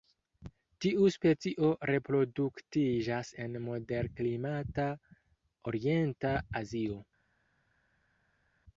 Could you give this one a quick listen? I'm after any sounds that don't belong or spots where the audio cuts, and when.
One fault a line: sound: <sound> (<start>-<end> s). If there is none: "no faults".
no faults